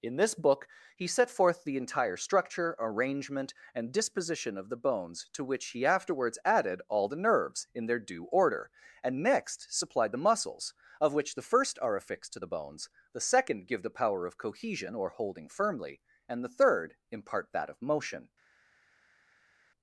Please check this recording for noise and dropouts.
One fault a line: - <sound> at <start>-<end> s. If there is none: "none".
none